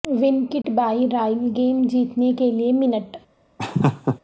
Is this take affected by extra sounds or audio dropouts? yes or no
yes